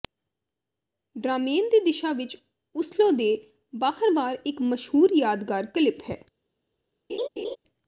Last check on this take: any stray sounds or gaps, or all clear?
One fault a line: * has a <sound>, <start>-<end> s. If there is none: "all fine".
* has a laugh, 7.1-7.6 s